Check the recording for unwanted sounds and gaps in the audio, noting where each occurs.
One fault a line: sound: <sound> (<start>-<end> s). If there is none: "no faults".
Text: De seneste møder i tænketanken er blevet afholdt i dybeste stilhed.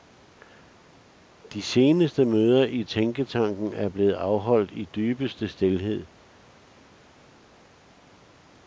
no faults